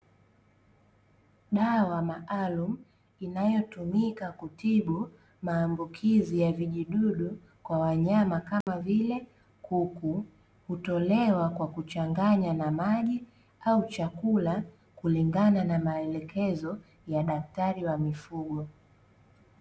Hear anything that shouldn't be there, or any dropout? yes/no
yes